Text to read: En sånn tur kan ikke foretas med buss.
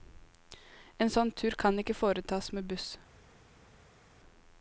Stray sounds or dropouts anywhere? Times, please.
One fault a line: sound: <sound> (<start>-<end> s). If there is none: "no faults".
no faults